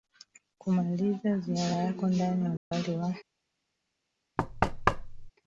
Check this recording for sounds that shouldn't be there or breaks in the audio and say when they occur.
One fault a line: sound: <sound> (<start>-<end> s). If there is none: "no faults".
sound: dropout (2.6-2.7 s)
sound: thud (4.4-5.3 s)